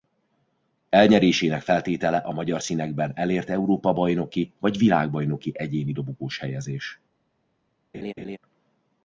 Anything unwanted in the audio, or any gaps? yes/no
yes